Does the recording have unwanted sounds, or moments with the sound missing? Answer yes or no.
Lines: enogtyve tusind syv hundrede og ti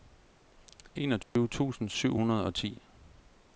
yes